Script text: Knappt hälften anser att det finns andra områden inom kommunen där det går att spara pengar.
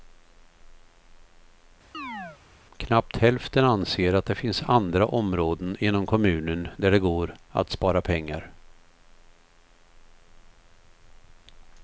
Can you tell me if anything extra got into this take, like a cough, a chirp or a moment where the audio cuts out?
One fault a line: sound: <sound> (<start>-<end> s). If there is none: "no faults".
sound: chirp (1.9-2.4 s)